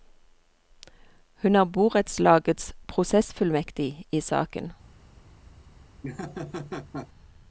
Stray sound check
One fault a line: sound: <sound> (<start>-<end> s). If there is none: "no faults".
sound: laugh (6.0-7.1 s)